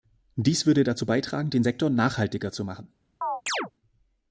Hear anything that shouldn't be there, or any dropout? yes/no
yes